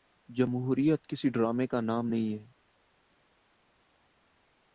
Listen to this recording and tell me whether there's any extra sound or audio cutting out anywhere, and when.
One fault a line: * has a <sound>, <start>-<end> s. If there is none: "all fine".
all fine